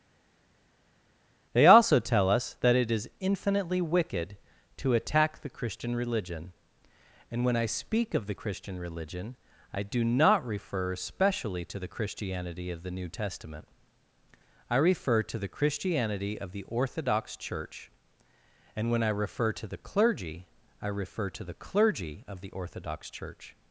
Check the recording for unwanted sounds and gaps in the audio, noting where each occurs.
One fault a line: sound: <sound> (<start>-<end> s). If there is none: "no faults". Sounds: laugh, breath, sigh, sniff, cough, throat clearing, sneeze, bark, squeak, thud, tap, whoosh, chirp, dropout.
no faults